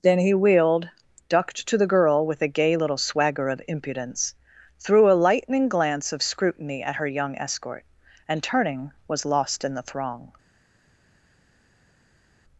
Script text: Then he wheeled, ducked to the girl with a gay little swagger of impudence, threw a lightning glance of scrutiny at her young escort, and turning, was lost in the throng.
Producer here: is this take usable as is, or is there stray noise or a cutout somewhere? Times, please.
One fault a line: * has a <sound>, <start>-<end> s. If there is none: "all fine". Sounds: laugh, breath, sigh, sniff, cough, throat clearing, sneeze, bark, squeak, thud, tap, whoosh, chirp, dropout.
all fine